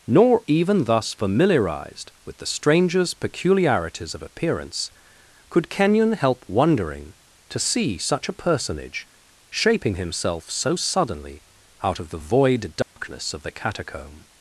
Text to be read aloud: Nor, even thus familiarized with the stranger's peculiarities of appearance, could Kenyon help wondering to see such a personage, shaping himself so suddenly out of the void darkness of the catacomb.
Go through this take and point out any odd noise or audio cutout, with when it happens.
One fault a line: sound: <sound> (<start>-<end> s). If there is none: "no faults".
sound: dropout (12.8-13.0 s)